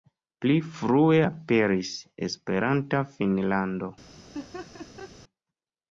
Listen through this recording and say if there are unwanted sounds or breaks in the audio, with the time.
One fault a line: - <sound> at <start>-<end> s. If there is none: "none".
- laugh at 4.3-5.1 s